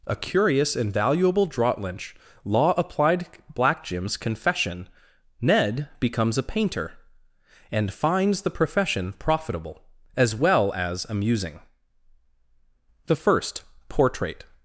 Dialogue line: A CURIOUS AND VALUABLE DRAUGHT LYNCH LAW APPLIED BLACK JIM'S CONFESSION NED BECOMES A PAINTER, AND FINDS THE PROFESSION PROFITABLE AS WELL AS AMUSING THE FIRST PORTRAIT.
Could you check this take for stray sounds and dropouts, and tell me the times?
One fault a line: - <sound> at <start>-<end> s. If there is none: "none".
none